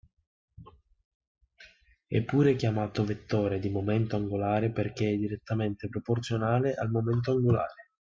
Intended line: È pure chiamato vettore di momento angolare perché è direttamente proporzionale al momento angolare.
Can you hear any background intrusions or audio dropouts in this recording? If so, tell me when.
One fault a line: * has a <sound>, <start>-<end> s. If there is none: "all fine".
all fine